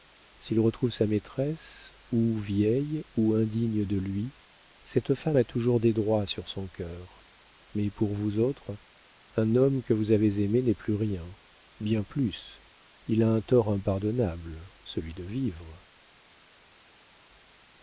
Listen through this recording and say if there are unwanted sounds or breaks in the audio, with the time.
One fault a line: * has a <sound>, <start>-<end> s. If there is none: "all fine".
all fine